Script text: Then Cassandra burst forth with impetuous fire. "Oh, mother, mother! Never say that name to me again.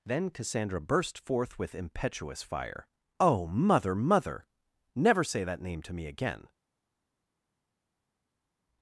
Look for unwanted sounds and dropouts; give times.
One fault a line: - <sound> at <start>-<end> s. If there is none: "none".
none